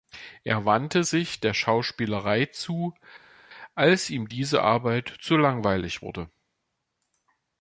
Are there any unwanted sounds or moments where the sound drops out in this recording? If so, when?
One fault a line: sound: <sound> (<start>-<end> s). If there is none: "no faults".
no faults